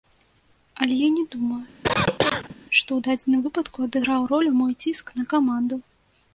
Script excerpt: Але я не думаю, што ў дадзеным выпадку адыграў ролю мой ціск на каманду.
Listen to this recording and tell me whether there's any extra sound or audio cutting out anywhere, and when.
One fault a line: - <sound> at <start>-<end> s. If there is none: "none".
- cough at 1.8-2.6 s